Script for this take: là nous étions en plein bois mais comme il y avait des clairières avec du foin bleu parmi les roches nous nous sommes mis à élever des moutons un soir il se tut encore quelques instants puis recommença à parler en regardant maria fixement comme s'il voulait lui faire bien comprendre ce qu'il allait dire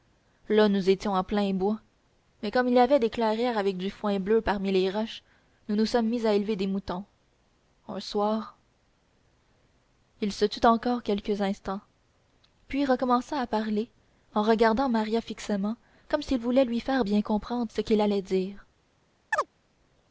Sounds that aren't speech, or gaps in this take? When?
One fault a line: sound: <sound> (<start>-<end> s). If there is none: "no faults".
sound: chirp (19.3-19.5 s)